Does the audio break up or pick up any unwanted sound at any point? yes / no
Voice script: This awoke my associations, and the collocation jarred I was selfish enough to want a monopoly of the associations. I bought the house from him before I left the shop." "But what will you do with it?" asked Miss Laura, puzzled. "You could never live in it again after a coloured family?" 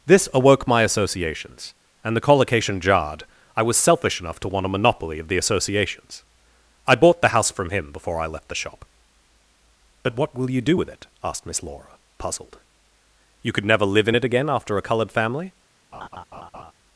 yes